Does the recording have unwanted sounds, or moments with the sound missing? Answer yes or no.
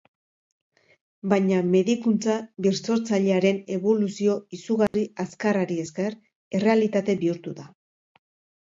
yes